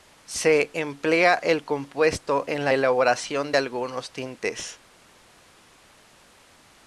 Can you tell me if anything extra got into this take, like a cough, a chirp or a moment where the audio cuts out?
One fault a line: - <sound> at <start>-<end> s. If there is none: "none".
none